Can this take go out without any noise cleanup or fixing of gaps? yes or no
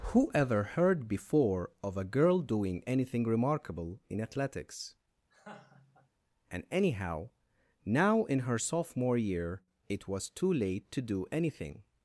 no